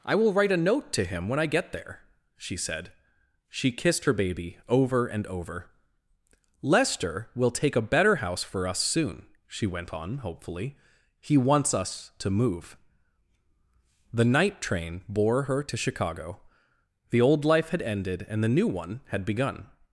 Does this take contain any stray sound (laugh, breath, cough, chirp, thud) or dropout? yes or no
no